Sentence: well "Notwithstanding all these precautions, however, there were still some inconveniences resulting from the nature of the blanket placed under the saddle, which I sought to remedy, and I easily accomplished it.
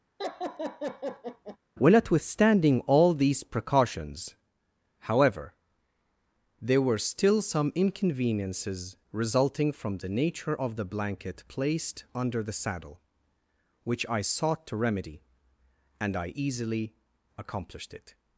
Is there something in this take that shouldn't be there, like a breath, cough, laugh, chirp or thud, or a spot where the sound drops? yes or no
yes